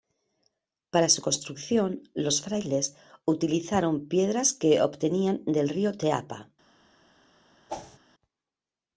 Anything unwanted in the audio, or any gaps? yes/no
yes